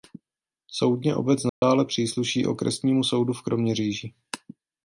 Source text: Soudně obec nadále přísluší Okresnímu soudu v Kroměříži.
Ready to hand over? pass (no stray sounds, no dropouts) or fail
fail